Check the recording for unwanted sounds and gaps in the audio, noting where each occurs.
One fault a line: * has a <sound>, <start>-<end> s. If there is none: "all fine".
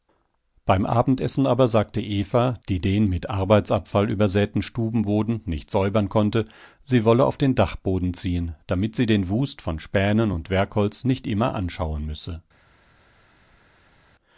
all fine